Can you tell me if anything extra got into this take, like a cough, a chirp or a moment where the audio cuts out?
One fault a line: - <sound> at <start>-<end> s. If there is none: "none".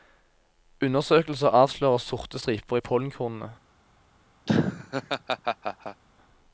- laugh at 4.5-6.0 s